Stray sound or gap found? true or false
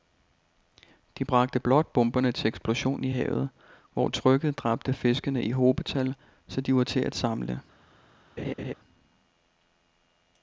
true